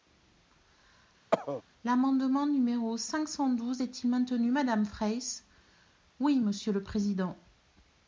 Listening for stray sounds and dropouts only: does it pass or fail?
fail